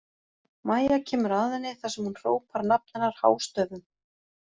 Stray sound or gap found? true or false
false